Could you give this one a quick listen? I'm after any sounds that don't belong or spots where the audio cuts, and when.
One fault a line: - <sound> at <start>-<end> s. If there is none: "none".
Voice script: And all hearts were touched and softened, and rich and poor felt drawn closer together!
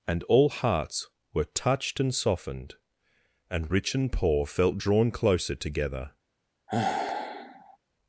- sigh at 6.7-7.8 s